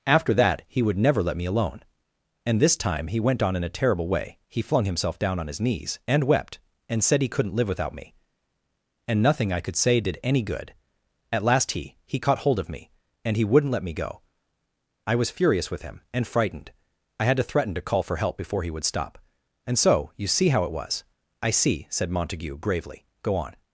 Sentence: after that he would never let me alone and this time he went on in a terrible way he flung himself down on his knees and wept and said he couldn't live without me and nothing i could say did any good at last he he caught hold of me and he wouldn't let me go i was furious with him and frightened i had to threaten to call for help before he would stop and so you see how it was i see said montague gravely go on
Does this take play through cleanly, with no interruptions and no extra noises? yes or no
yes